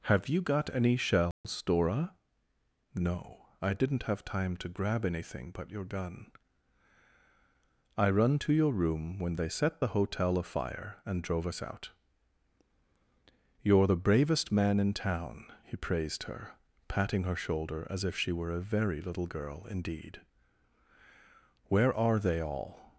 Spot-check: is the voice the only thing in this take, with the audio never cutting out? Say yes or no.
no